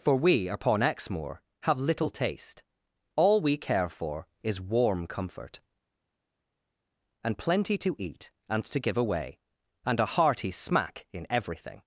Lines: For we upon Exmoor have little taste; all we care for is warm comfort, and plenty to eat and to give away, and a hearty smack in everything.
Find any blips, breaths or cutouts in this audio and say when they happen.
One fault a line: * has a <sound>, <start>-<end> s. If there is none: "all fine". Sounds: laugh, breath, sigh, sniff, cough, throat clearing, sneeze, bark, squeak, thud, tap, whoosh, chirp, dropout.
all fine